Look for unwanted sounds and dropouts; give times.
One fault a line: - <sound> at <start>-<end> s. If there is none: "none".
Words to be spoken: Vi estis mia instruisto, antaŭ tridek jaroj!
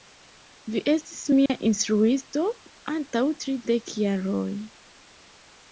- dropout at 1.5-1.5 s